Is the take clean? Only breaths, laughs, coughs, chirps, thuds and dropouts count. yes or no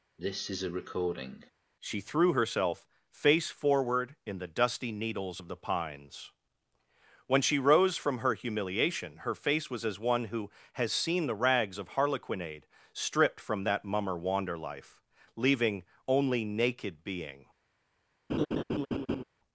no